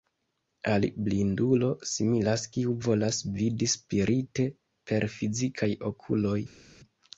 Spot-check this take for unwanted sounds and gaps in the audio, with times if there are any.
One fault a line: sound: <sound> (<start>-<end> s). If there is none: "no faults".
no faults